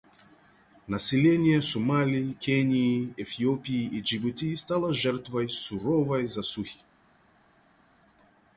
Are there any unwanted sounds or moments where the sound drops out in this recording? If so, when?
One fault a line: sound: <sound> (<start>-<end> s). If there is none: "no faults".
no faults